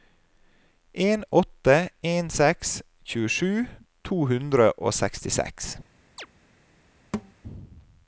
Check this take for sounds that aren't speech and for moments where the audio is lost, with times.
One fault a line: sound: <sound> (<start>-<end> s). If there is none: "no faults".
sound: chirp (6.2-6.3 s)
sound: thud (7.1-7.3 s)